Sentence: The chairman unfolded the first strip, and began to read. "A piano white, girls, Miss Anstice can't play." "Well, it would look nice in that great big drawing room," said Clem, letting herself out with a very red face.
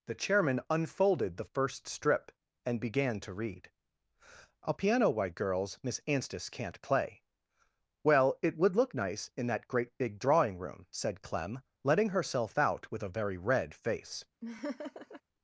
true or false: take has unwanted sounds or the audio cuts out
true